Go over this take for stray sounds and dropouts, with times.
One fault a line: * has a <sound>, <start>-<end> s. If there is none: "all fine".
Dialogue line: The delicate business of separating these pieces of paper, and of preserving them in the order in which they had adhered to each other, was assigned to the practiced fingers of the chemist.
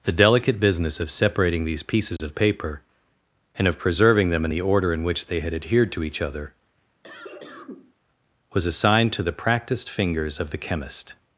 * has a dropout, 2.2-2.2 s
* has a cough, 7.0-7.9 s